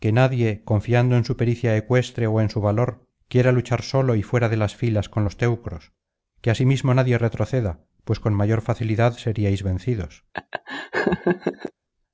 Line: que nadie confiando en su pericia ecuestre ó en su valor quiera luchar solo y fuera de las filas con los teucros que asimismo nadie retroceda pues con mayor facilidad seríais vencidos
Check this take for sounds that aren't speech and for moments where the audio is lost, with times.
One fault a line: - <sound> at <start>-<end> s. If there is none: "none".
- laugh at 10.3-11.7 s